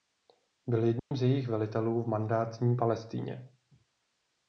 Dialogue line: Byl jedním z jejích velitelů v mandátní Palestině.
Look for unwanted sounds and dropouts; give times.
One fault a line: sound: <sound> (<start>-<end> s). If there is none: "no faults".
sound: dropout (1.0-1.1 s)